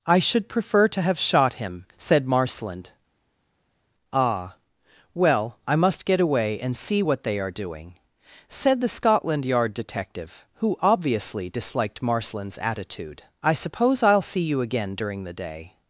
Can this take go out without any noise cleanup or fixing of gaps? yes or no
yes